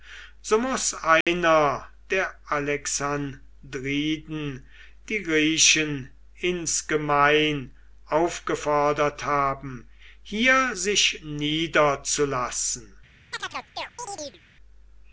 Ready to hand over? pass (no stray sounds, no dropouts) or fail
fail